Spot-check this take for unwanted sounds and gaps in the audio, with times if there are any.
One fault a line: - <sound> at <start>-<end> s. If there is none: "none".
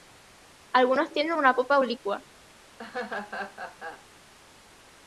- laugh at 2.8-4.1 s